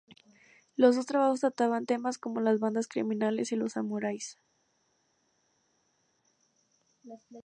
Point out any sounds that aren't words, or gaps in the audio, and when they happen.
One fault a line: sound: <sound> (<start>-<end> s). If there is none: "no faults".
no faults